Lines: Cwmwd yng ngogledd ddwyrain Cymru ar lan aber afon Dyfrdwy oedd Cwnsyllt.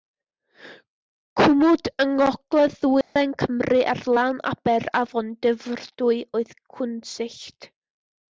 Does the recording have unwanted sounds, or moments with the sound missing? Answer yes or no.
yes